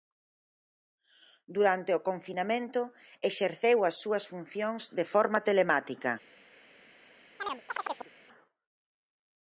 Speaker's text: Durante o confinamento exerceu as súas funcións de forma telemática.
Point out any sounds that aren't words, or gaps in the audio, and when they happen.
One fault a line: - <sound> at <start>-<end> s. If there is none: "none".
- chirp at 7.4-8.1 s